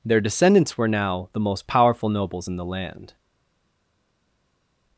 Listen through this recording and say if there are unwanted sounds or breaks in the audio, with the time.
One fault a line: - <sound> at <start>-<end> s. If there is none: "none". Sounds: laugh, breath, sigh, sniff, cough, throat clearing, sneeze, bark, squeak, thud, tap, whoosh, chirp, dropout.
none